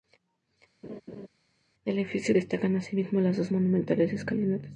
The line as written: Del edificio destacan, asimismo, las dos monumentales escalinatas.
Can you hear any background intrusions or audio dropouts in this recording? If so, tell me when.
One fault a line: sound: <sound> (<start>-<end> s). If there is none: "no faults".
sound: laugh (0.8-1.3 s)